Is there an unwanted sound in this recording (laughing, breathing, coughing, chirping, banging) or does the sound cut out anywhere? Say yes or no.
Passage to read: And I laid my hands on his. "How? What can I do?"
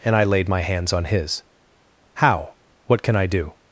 no